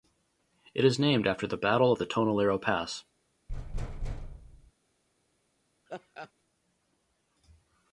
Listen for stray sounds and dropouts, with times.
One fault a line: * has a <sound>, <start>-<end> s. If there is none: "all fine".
* has a thud, 3.5-4.7 s
* has a laugh, 5.9-6.3 s